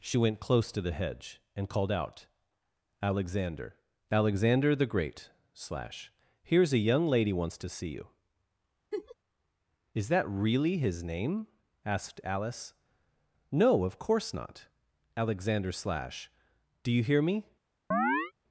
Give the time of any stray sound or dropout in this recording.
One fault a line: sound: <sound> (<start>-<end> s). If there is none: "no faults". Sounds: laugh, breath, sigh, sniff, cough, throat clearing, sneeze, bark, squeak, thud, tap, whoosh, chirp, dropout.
sound: laugh (8.9-9.2 s)
sound: chirp (17.9-18.3 s)